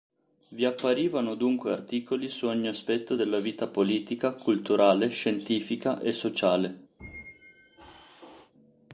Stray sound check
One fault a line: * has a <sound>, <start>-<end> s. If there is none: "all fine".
* has a squeak, 7.0-8.5 s